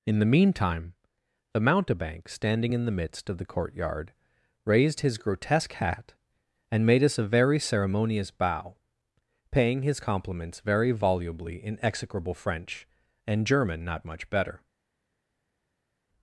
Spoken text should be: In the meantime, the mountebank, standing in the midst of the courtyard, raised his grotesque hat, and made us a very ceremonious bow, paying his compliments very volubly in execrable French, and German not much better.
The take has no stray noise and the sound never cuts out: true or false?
true